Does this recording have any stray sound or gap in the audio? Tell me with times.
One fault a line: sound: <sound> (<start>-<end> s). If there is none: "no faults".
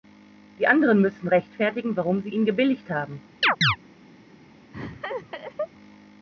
sound: chirp (3.4-3.8 s)
sound: laugh (4.7-5.7 s)